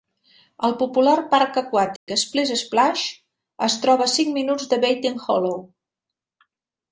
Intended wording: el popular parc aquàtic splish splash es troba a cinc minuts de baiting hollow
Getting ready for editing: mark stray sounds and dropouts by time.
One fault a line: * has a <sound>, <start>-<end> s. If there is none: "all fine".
* has a dropout, 2.0-2.1 s